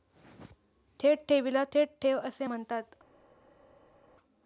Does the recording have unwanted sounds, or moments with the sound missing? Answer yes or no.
no